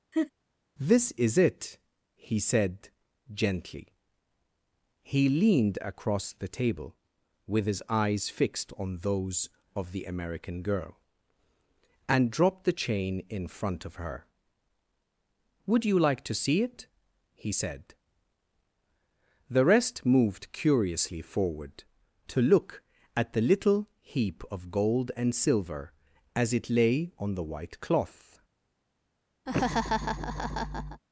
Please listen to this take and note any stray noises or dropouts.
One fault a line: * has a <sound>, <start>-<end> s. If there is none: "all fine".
* has a laugh, 0.1-0.3 s
* has a laugh, 29.5-31.0 s